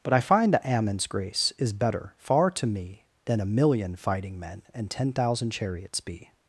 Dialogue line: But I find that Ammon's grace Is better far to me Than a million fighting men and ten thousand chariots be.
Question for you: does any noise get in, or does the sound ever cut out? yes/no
no